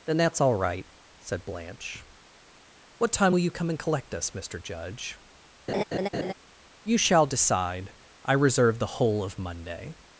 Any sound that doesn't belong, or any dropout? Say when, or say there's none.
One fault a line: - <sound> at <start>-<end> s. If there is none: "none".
- laugh at 5.7-6.3 s